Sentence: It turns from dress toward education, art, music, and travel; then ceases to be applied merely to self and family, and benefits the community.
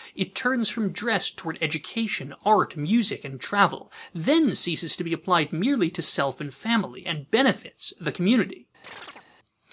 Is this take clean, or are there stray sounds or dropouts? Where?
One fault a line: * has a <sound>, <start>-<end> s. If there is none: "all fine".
* has a chirp, 8.8-9.3 s